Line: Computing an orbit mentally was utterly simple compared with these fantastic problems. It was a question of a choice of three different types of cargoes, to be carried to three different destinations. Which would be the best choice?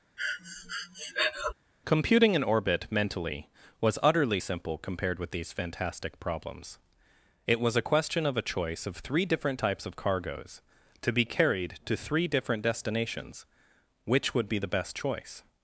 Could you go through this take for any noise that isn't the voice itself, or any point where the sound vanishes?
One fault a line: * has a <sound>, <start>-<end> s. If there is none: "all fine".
* has a breath, 0.2-1.5 s